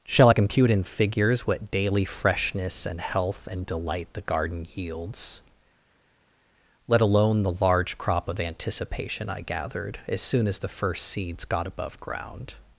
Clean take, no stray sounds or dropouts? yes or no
yes